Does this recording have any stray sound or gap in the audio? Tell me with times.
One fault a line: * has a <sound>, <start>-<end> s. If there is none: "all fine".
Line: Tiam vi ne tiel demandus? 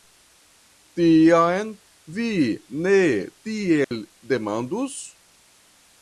* has a dropout, 3.8-3.9 s